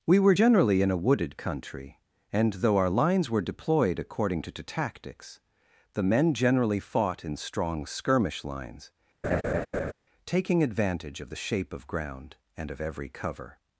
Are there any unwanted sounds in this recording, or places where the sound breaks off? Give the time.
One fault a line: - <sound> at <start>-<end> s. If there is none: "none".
- laugh at 9.2-9.9 s